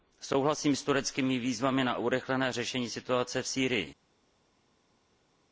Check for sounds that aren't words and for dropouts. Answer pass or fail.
pass